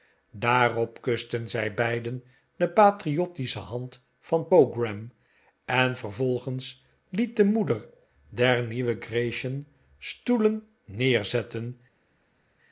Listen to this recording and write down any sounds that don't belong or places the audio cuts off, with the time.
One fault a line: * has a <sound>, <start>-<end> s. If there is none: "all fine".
all fine